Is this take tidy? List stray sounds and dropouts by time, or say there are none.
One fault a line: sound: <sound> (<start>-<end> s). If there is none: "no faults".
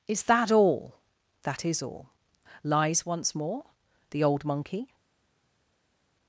no faults